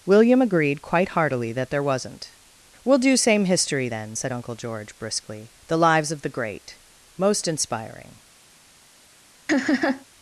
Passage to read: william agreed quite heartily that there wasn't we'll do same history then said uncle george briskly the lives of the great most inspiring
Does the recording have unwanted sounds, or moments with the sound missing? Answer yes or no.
yes